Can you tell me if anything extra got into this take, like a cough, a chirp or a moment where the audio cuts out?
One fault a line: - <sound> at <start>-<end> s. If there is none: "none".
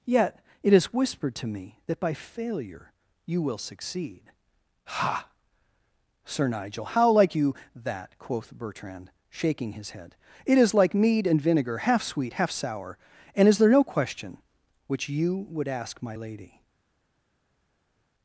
none